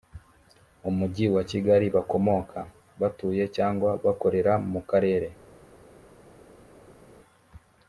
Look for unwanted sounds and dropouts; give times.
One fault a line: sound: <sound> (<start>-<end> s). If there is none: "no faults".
no faults